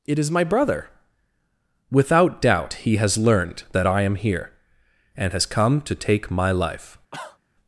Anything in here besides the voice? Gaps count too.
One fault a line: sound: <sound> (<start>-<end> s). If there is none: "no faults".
sound: cough (7.1-7.4 s)